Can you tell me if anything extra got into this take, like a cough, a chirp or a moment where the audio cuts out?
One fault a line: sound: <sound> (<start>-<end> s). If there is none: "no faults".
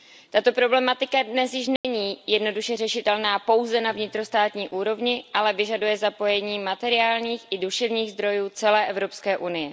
sound: dropout (1.8-1.8 s)